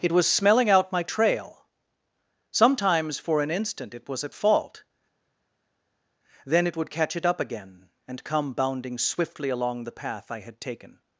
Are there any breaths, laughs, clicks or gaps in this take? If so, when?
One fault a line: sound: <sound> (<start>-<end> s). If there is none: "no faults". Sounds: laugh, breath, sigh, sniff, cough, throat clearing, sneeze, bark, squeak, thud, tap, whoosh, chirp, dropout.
no faults